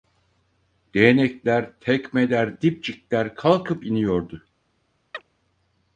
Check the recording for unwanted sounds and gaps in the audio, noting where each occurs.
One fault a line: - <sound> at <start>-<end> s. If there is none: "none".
- chirp at 5.1-5.2 s